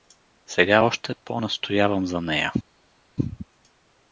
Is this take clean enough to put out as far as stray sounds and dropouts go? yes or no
yes